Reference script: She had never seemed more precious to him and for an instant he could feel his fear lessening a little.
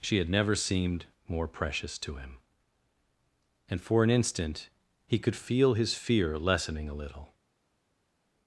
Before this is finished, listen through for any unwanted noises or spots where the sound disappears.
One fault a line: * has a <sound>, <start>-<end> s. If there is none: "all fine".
all fine